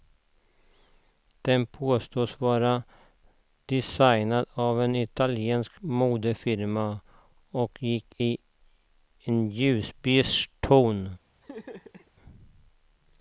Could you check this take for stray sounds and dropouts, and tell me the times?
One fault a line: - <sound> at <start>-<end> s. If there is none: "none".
- laugh at 11.4-12.1 s